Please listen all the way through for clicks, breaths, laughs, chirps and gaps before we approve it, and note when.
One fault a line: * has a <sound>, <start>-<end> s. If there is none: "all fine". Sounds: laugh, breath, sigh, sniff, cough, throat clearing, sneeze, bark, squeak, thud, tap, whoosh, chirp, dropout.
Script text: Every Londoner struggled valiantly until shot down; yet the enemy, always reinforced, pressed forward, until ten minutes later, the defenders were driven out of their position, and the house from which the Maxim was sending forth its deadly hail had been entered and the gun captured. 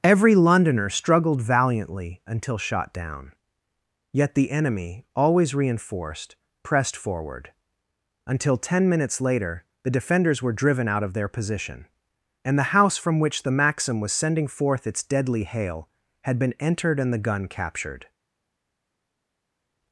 all fine